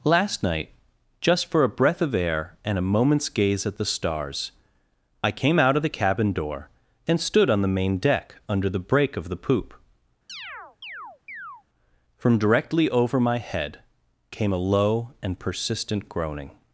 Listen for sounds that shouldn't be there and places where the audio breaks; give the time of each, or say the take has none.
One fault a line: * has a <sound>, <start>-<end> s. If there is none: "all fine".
* has a chirp, 10.3-11.6 s